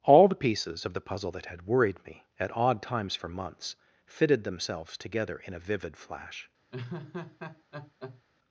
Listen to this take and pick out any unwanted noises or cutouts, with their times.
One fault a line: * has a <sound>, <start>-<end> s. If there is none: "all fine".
* has a laugh, 6.7-8.2 s